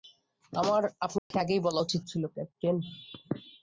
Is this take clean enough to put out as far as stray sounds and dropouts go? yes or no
no